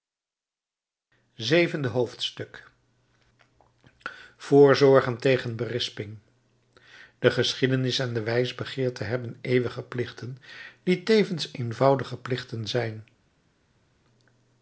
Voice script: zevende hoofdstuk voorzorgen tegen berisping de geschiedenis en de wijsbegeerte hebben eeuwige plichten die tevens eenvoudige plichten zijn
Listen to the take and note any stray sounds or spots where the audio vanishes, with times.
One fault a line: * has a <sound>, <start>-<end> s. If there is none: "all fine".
all fine